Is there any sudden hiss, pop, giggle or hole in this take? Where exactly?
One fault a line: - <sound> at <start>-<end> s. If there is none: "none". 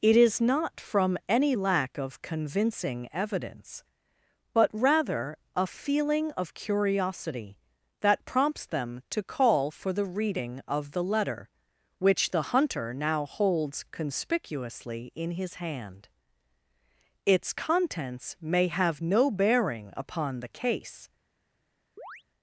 - chirp at 22.0-22.2 s